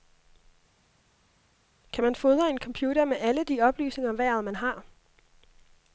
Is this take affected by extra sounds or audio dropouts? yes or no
no